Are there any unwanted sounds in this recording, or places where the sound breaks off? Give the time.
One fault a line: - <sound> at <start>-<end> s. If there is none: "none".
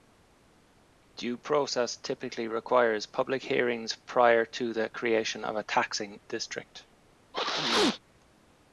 - sneeze at 7.3-8.0 s